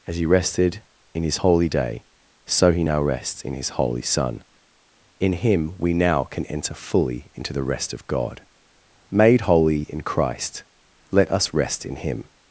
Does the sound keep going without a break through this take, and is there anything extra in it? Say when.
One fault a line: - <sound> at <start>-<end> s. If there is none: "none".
none